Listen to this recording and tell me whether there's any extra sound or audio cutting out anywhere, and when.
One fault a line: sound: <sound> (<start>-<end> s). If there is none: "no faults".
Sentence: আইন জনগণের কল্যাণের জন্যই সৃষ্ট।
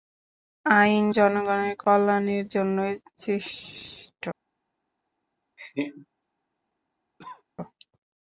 sound: laugh (5.6-6.1 s)
sound: cough (7.2-7.4 s)